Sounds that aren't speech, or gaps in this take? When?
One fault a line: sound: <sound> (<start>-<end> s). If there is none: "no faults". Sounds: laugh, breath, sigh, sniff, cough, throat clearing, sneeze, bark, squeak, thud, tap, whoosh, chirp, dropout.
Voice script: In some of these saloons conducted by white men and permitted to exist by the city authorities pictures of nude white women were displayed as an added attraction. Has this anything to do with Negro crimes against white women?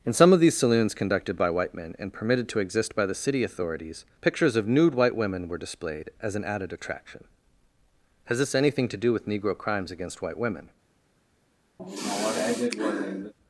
sound: sigh (11.8-13.3 s)